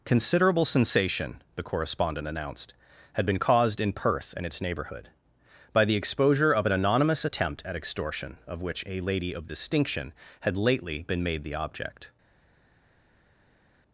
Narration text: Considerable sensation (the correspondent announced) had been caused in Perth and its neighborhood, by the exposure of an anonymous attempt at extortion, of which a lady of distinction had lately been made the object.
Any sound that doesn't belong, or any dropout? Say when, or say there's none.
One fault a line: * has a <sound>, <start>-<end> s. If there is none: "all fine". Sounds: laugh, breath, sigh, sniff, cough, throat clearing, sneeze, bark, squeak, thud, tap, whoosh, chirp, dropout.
all fine